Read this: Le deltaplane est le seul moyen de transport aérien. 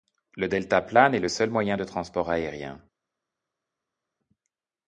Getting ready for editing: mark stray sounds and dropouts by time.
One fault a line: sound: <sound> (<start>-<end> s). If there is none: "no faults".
no faults